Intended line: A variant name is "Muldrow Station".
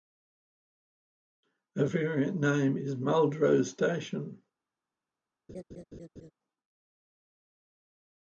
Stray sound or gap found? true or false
true